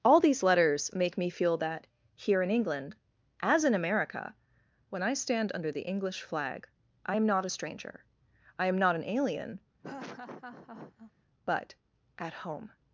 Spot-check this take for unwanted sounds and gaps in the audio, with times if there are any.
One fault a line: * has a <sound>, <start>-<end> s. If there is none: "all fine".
* has a laugh, 9.8-11.1 s